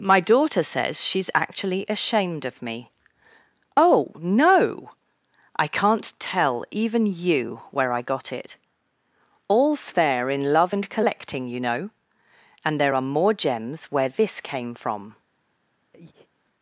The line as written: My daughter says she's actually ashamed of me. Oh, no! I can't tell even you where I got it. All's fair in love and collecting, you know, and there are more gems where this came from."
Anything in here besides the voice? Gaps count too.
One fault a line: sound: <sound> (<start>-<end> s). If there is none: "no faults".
sound: breath (15.9-16.3 s)